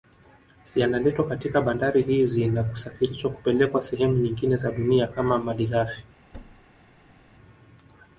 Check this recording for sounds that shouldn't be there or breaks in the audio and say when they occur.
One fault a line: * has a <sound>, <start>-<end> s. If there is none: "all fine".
* has a thud, 6.3-7.3 s